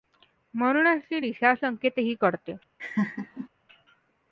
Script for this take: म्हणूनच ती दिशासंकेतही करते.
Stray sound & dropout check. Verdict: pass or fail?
fail